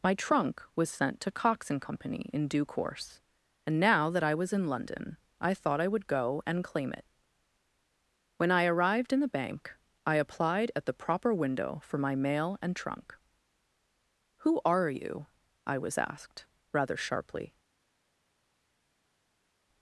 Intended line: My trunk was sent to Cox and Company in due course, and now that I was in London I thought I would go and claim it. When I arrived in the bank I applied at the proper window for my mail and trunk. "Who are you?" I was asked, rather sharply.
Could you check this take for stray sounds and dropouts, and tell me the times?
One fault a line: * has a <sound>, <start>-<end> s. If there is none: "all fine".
all fine